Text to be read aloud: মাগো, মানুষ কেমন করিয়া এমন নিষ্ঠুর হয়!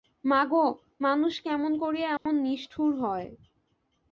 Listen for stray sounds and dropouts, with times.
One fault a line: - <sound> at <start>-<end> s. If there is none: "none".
- dropout at 2.2-2.3 s